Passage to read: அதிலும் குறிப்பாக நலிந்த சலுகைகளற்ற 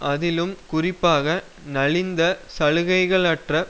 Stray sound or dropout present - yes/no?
no